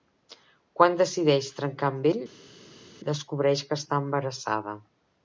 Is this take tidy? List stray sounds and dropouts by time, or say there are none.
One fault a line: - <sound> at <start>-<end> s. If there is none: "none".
none